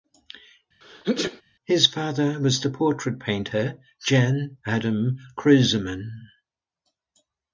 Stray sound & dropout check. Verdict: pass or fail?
fail